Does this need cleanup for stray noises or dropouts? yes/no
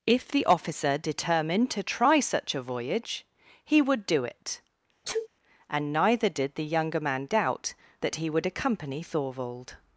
yes